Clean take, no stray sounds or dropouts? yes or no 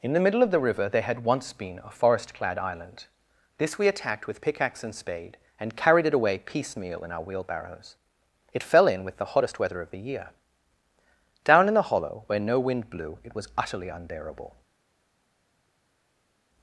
yes